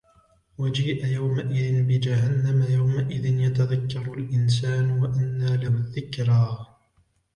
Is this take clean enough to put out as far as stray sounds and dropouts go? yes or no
yes